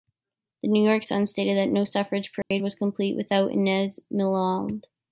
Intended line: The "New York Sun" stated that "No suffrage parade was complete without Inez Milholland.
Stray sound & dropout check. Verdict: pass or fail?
fail